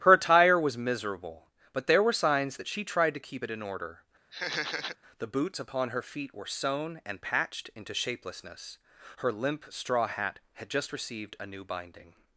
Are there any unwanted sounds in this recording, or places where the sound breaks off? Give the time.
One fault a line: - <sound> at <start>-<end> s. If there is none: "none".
- laugh at 4.3-5.0 s